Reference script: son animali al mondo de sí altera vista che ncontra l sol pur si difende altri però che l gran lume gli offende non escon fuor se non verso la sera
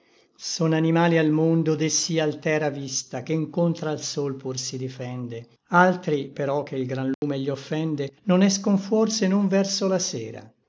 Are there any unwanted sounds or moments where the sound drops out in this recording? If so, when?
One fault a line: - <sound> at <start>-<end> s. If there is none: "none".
- dropout at 7.1-7.2 s